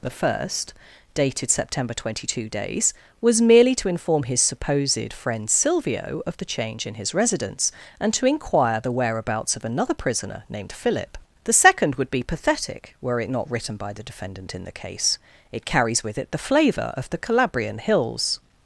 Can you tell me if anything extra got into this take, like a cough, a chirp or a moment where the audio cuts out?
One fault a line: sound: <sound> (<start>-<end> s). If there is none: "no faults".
no faults